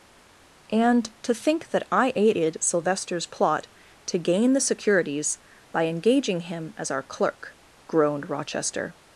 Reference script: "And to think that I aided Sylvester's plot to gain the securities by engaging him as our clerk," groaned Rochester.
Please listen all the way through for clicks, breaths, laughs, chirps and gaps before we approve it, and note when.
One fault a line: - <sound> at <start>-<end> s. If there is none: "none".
none